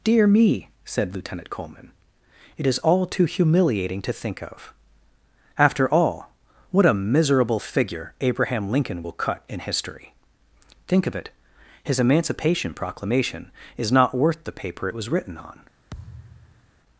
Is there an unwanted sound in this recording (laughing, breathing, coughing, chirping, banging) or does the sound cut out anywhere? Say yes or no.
yes